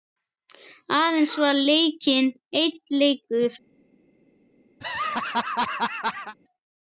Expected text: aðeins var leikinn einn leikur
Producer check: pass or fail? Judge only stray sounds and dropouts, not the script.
fail